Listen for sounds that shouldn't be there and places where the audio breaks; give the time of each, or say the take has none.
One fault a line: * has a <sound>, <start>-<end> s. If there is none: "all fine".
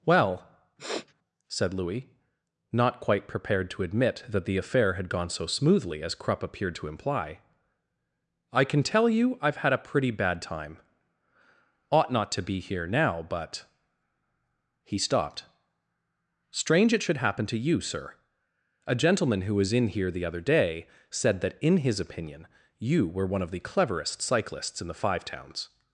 * has a sniff, 0.8-1.1 s